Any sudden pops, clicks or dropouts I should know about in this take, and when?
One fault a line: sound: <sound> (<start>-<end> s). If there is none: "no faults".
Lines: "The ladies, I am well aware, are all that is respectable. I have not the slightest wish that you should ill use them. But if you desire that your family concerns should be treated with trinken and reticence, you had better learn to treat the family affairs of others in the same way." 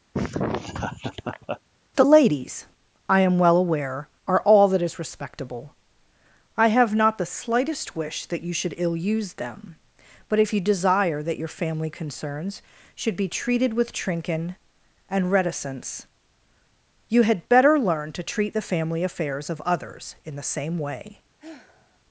sound: laugh (0.1-1.6 s)
sound: sigh (21.4-22.0 s)